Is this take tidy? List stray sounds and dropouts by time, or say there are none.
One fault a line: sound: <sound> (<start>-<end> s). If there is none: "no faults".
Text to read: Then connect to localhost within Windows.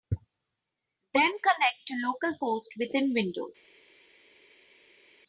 no faults